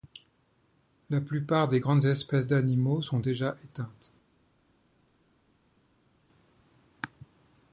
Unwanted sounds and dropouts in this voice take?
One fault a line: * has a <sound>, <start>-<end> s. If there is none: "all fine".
all fine